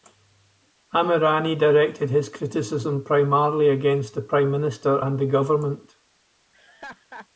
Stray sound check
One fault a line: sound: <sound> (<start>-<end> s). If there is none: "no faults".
sound: laugh (6.5-7.3 s)